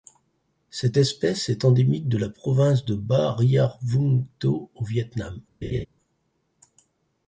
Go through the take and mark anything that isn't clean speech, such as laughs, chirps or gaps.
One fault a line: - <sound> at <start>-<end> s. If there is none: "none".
- laugh at 5.6-5.9 s